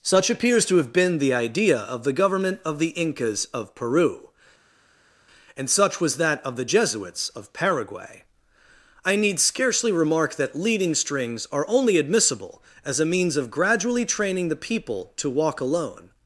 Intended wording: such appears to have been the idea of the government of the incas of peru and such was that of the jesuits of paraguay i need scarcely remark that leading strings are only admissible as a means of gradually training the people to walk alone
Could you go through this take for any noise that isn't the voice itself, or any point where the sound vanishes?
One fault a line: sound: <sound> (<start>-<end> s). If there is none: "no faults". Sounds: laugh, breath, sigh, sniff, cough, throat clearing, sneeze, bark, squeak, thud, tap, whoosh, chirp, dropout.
no faults